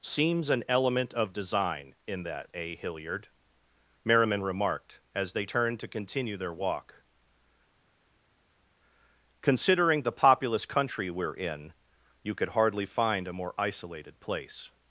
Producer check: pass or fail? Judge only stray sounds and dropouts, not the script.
pass